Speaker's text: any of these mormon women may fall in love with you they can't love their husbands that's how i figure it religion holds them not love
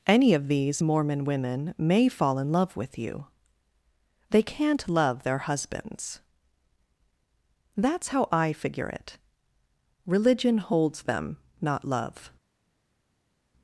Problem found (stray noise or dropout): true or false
false